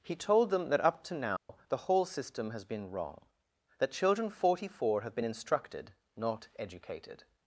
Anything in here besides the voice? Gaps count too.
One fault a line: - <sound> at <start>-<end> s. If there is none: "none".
- dropout at 1.4-1.5 s